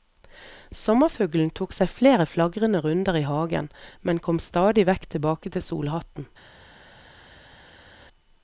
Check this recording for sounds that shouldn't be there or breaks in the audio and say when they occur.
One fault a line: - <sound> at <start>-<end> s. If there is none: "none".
none